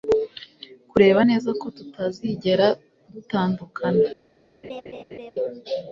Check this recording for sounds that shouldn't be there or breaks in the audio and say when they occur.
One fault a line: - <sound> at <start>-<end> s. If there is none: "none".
- laugh at 4.6-5.3 s